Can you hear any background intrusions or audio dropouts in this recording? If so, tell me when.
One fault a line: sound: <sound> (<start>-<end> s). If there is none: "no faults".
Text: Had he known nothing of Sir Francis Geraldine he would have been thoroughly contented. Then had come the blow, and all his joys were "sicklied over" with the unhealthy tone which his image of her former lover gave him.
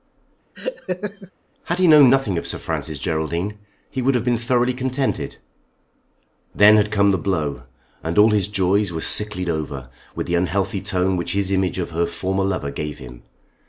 sound: laugh (0.5-1.3 s)